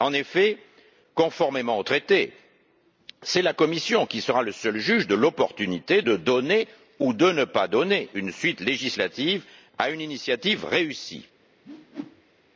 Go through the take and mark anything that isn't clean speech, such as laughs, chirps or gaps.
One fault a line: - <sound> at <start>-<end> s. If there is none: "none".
- whoosh at 11.6-12.4 s